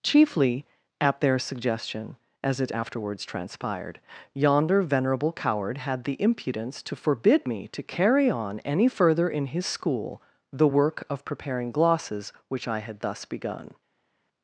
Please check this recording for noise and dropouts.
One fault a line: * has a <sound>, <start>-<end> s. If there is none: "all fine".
all fine